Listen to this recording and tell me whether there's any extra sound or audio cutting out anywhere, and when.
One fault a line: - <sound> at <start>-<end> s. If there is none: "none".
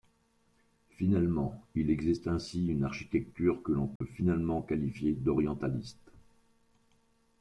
- dropout at 4.0-4.0 s